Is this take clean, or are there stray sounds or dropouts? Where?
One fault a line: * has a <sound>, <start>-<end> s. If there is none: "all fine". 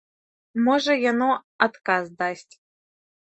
all fine